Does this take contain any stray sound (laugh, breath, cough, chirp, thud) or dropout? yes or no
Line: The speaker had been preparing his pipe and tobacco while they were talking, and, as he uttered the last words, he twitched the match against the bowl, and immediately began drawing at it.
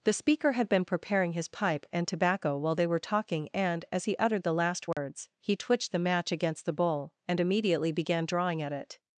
yes